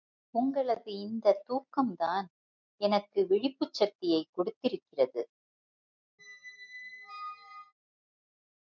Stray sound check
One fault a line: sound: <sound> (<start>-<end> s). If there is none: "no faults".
sound: squeak (6.2-7.7 s)